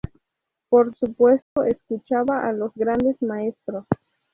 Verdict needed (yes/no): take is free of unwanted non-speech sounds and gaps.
no